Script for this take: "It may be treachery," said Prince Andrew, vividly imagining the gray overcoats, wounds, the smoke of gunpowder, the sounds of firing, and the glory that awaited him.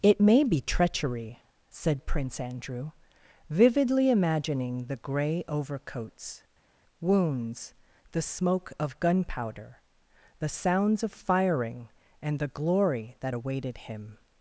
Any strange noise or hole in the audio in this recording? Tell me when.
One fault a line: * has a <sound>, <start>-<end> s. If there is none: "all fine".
all fine